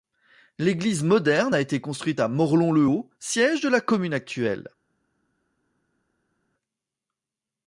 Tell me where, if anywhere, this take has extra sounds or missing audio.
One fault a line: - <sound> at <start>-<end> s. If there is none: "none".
none